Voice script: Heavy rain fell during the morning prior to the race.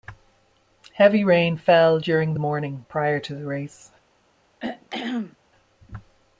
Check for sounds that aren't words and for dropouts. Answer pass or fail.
fail